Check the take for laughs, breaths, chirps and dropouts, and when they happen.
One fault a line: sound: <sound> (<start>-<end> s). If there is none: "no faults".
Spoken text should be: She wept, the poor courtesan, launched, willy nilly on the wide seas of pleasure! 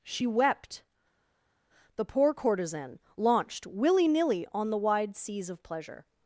no faults